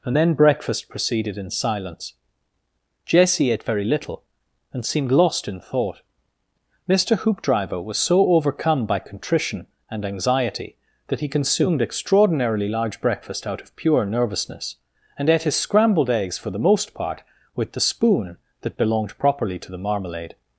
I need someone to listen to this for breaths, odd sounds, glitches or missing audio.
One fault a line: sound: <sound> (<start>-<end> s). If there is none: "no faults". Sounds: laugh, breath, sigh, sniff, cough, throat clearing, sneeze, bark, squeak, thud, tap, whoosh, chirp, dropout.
no faults